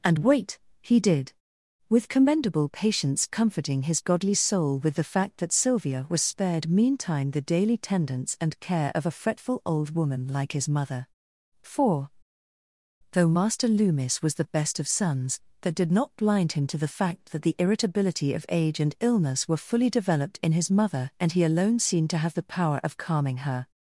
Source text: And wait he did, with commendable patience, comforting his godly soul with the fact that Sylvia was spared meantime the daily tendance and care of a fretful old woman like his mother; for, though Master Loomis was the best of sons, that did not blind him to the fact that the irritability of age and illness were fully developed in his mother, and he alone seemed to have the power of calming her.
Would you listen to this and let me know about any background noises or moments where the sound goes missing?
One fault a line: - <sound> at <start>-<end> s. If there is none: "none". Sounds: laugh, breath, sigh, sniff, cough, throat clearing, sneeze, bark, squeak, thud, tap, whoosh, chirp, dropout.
none